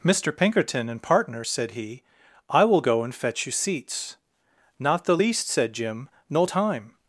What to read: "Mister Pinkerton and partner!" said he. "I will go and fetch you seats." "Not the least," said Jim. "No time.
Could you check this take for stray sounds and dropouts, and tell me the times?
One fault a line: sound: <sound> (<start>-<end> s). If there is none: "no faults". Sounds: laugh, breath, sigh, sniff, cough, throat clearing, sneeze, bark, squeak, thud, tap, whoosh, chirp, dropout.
no faults